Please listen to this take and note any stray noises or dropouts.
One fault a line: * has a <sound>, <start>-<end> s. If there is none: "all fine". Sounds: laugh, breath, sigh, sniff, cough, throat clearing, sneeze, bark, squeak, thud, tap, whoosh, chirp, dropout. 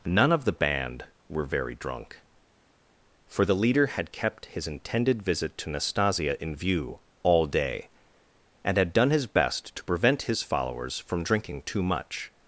all fine